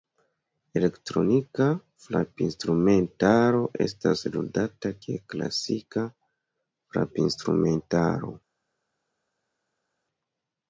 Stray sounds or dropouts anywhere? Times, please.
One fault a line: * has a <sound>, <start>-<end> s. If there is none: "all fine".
all fine